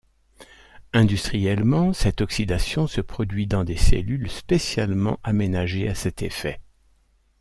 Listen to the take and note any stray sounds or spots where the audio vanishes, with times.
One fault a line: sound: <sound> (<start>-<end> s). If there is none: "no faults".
no faults